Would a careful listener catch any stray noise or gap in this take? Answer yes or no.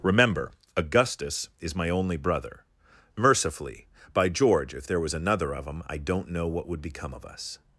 no